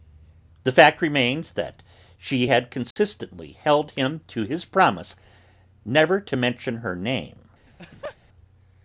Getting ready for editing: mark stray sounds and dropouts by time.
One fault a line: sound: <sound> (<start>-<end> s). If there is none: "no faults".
sound: dropout (2.9-3.0 s)
sound: laugh (7.7-8.2 s)